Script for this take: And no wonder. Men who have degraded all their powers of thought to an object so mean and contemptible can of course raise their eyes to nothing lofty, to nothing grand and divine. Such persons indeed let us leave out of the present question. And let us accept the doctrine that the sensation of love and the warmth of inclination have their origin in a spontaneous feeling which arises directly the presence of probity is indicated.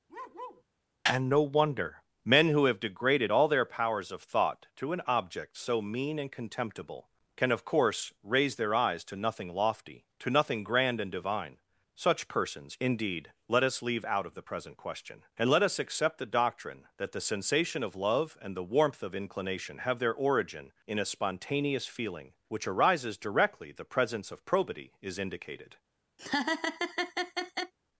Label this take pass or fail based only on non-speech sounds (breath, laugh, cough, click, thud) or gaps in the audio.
fail